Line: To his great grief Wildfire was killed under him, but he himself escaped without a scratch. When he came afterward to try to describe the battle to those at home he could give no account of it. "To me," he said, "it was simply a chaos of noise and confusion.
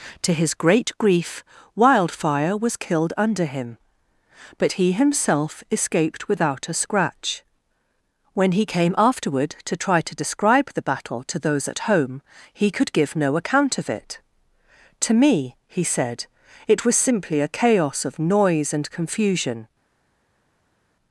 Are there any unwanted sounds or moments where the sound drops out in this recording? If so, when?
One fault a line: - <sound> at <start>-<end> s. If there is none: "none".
none